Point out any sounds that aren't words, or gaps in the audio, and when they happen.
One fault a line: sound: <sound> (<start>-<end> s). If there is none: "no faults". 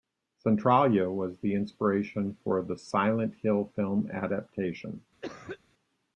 sound: cough (5.2-5.6 s)